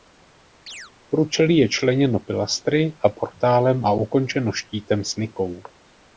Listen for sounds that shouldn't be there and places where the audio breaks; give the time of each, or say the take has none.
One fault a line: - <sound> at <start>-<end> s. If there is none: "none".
- chirp at 0.7-0.9 s